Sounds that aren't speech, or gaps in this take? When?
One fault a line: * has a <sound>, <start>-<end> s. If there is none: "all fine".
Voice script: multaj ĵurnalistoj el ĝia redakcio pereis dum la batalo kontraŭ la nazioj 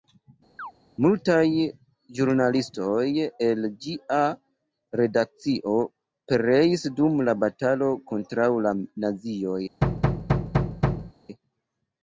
* has a chirp, 0.6-0.7 s
* has a thud, 9.8-11.1 s